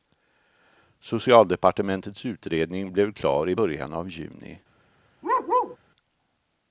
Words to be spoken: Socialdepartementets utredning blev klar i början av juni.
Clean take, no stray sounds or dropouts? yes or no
no